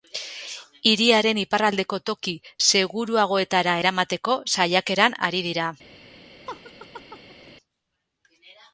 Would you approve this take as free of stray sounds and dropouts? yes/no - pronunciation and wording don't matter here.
no